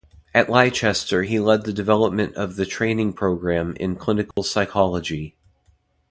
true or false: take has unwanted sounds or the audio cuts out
true